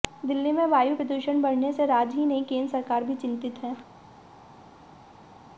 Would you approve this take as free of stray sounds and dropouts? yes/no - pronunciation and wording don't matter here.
yes